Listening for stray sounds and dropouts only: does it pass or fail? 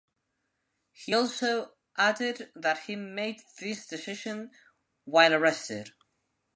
pass